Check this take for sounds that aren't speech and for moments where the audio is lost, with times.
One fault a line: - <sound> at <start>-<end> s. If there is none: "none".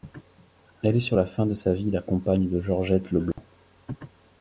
- dropout at 3.3-3.4 s